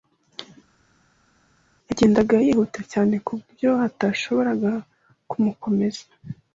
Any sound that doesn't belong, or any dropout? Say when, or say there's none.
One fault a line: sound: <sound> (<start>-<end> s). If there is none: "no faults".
no faults